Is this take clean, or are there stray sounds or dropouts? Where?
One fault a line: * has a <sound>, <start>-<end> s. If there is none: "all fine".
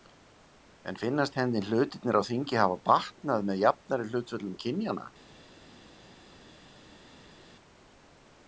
all fine